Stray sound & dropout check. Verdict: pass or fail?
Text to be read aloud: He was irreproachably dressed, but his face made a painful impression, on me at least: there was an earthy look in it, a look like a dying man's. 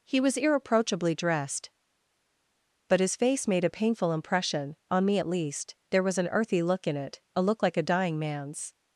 pass